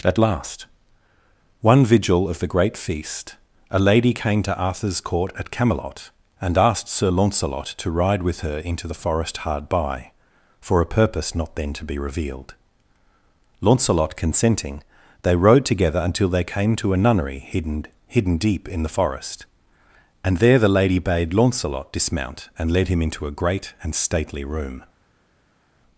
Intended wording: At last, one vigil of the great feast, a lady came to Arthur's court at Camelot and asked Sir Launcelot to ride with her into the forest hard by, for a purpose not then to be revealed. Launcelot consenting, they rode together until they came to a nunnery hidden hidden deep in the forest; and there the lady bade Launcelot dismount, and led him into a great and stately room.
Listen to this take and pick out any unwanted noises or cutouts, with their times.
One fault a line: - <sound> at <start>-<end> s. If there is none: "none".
none